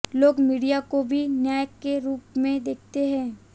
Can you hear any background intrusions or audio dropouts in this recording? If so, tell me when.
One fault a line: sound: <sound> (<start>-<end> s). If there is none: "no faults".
no faults